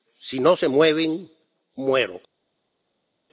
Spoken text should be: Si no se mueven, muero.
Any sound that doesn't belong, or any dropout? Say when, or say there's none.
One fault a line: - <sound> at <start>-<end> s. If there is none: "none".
none